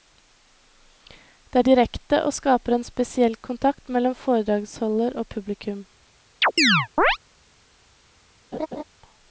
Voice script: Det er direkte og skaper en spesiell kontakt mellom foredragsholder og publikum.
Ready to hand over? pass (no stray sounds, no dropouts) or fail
fail